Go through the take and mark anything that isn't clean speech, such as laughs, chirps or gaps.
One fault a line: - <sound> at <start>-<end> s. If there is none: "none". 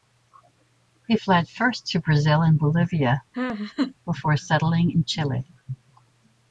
- laugh at 3.3-3.9 s